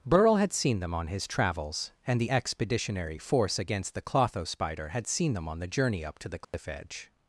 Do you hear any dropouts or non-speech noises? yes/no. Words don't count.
yes